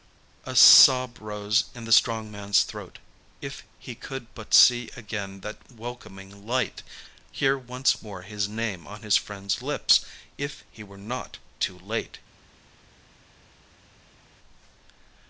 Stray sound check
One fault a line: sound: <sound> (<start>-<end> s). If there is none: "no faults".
no faults